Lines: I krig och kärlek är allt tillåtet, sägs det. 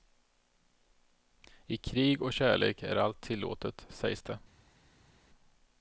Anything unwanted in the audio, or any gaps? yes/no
no